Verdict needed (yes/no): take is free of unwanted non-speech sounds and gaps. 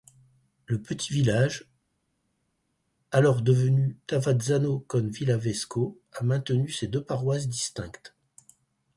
yes